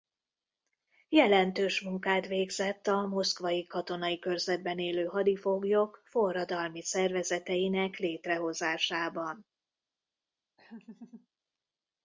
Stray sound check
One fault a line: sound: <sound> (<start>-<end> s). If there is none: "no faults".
sound: laugh (10.6-11.3 s)